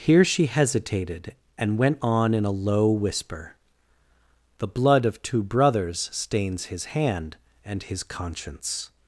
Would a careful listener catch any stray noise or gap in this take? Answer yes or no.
no